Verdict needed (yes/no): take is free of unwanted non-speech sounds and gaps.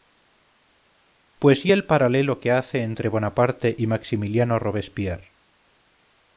yes